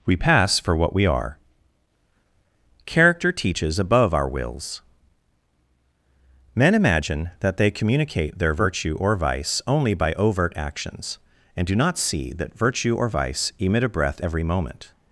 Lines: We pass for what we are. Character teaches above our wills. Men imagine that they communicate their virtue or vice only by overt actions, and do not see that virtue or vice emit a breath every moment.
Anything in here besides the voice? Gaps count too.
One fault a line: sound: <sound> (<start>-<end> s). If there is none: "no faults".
no faults